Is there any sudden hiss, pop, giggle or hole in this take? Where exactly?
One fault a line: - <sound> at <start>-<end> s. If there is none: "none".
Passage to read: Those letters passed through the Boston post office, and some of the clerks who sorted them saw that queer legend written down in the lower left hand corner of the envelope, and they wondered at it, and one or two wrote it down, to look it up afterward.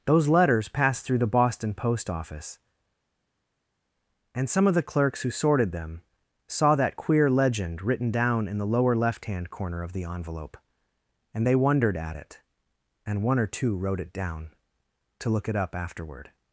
none